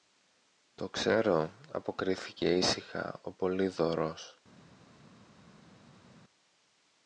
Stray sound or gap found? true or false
false